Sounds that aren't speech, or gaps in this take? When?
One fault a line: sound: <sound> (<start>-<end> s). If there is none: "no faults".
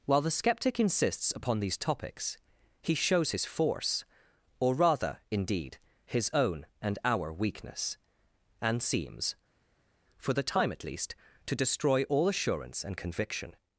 no faults